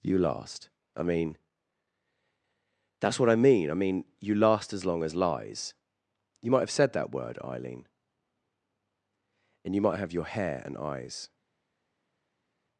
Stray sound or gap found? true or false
false